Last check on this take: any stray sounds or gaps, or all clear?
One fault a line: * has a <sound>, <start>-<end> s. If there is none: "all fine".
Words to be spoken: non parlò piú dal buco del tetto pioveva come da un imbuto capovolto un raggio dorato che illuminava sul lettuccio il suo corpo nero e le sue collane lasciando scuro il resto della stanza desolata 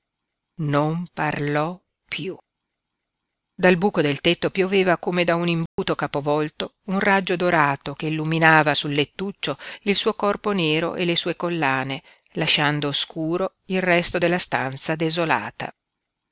* has a dropout, 5.7-5.8 s